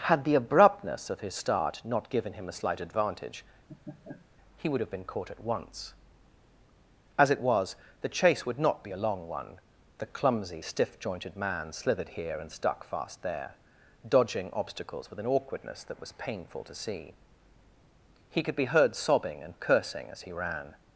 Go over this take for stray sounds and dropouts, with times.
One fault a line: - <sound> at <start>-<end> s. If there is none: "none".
- laugh at 3.7-4.3 s